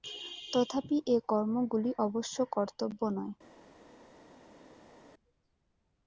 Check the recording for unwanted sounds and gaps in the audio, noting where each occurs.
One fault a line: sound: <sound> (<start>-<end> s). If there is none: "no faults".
no faults